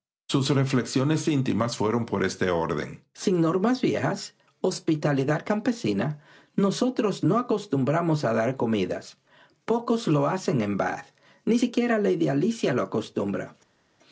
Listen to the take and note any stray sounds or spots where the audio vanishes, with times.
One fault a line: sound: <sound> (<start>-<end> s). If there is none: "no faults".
no faults